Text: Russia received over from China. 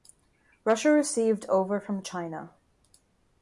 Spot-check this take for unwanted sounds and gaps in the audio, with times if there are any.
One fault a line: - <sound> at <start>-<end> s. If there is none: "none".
none